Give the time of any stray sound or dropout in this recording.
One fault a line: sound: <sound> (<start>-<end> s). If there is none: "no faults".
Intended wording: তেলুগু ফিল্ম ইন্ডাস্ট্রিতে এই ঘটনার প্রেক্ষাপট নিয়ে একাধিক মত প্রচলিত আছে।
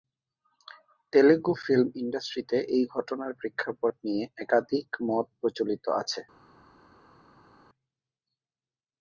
no faults